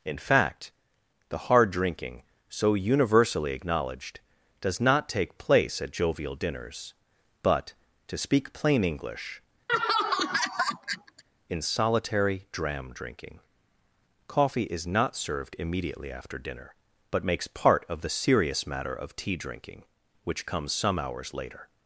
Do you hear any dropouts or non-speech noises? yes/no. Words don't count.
yes